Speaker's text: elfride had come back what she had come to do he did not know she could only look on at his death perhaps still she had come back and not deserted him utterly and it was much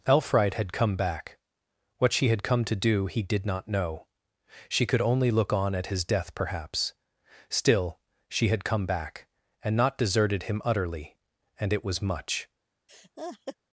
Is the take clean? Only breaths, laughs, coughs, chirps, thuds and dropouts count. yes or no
no